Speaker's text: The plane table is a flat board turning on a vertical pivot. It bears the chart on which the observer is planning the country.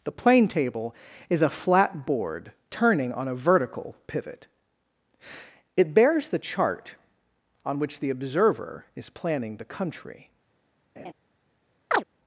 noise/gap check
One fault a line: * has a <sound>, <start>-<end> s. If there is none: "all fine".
* has a laugh, 11.0-11.1 s
* has a chirp, 11.9-12.0 s